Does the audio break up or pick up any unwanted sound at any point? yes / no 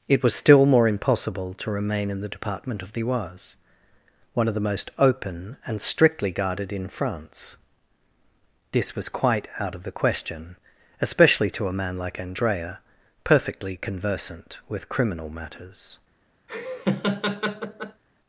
yes